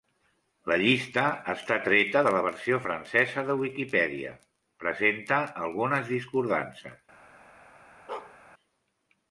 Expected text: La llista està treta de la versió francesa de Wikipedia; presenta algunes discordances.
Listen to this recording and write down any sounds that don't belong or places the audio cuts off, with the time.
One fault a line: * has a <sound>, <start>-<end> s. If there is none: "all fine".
* has a bark, 8.1-8.4 s